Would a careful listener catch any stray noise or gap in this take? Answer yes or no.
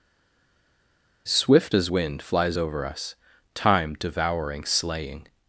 no